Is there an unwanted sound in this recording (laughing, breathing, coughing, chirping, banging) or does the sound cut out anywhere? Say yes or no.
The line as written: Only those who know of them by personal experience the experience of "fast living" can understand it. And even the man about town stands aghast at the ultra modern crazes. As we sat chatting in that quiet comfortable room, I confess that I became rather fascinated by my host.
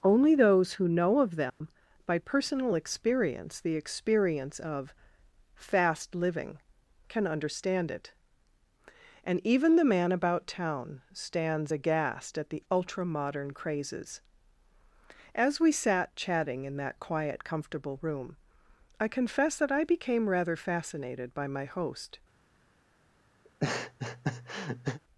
yes